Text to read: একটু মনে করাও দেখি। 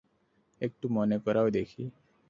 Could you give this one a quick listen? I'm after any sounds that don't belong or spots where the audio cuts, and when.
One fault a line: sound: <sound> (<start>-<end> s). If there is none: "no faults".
no faults